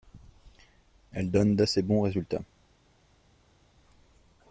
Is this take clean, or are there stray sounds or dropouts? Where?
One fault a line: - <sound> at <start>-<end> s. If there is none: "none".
none